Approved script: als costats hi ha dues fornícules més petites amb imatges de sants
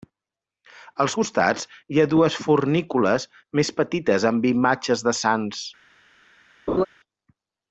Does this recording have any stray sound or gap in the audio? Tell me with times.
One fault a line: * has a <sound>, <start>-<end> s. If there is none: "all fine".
* has a laugh, 6.7-6.9 s